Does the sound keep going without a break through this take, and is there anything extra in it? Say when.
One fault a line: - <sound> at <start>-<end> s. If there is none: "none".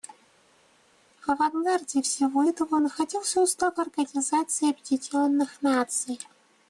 none